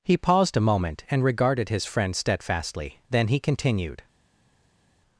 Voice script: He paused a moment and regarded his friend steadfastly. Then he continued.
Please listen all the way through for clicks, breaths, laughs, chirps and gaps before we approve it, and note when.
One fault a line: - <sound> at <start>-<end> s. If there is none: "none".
none